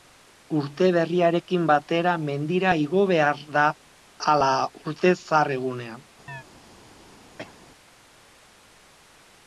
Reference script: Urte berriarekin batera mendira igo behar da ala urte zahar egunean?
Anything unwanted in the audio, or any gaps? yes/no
yes